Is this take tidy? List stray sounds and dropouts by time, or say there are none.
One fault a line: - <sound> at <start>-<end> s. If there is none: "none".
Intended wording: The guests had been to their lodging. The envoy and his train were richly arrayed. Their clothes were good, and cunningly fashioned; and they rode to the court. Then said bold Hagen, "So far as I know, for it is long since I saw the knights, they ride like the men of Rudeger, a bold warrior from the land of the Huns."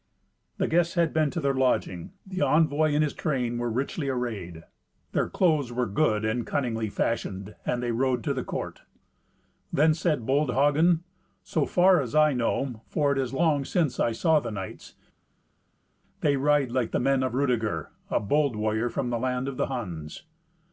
none